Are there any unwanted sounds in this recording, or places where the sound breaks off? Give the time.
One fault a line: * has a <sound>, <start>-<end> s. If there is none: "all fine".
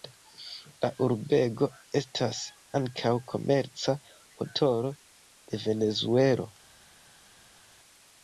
all fine